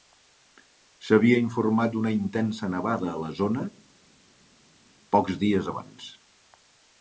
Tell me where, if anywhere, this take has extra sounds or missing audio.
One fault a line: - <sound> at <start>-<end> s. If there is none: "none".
none